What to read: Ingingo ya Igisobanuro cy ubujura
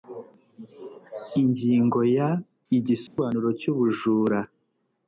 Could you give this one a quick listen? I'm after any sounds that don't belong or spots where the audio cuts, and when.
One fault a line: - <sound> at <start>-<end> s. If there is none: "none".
- dropout at 3.1-3.2 s